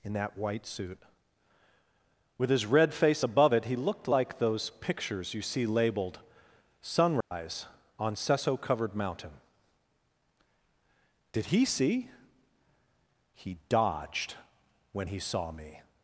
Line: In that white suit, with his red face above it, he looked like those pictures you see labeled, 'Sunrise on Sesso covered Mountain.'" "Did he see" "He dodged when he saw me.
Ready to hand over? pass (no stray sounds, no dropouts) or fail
fail